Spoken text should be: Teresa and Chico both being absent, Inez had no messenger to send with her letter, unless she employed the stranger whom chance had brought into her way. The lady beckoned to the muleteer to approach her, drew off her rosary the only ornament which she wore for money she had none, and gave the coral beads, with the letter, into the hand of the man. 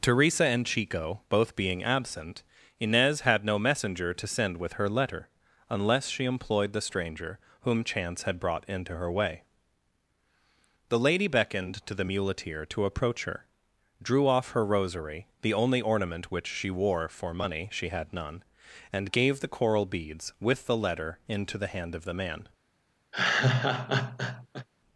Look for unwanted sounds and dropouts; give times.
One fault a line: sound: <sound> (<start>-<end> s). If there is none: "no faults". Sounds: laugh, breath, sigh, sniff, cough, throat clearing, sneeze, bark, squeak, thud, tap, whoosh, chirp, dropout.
sound: laugh (23.1-24.7 s)